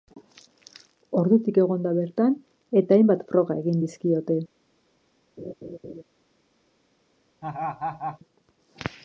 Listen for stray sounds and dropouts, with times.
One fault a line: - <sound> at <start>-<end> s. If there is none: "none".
- laugh at 5.4-6.0 s
- laugh at 7.4-8.2 s